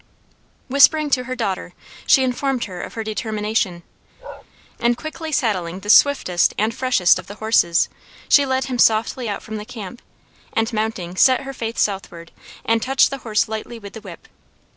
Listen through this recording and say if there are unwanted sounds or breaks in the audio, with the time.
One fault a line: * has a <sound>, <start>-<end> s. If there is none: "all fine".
* has a bark, 4.2-4.5 s